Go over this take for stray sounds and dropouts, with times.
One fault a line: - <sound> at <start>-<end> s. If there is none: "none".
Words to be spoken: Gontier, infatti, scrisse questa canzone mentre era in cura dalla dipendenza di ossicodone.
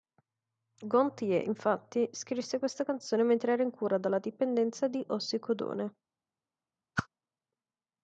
- whoosh at 7.0-7.1 s